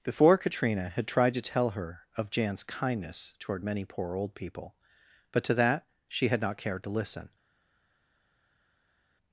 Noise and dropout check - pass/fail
pass